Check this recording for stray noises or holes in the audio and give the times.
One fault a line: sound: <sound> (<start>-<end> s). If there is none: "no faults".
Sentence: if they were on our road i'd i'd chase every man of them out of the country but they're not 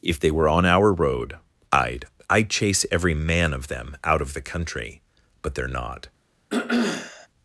sound: throat clearing (6.5-7.3 s)